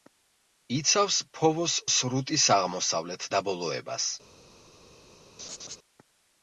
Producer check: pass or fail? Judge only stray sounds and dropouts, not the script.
fail